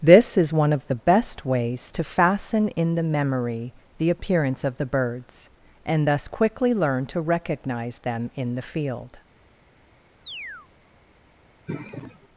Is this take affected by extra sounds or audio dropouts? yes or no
yes